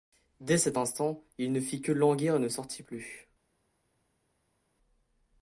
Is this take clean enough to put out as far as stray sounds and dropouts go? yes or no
yes